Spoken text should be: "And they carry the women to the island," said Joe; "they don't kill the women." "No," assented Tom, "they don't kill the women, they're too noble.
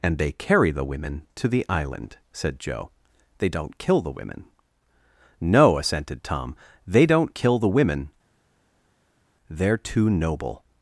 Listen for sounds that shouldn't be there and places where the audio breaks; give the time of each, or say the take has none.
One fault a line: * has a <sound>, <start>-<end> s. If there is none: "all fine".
all fine